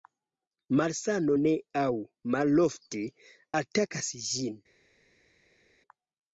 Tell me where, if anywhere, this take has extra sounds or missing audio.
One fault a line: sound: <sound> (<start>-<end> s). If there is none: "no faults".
no faults